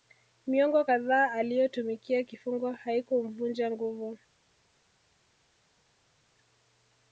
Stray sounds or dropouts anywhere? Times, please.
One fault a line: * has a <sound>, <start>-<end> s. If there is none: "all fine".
all fine